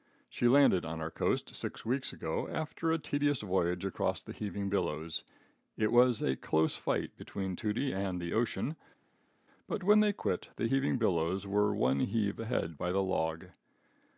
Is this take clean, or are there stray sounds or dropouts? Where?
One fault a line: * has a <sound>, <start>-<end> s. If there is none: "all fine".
all fine